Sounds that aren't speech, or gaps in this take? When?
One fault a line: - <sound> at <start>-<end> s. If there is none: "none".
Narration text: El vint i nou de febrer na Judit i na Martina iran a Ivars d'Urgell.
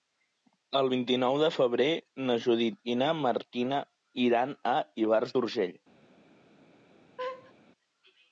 - laugh at 7.2-7.5 s